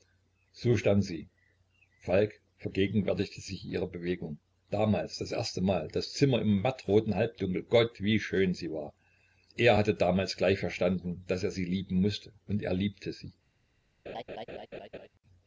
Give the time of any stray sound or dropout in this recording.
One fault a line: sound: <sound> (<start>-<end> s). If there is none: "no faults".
sound: laugh (14.1-15.1 s)